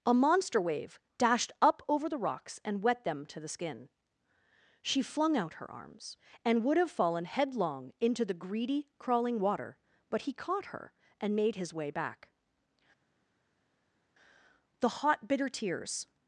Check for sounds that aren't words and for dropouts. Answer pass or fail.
pass